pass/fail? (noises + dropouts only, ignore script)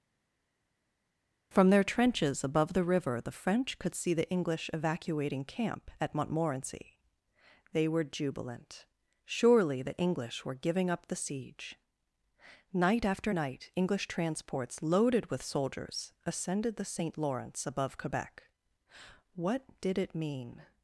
pass